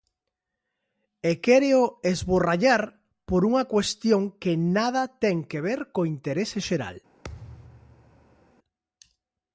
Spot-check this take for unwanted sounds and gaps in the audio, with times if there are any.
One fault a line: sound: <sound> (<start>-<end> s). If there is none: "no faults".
sound: thud (7.2-8.5 s)